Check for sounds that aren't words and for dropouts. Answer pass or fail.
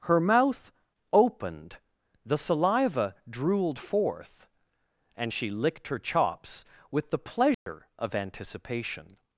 fail